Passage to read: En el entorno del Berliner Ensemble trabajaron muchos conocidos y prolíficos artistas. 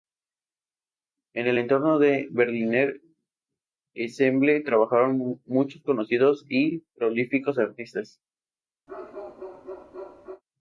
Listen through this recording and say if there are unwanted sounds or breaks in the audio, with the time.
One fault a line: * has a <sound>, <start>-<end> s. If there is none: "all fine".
* has a bark, 8.9-10.4 s